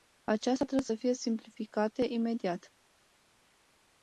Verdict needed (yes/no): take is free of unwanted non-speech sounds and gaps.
yes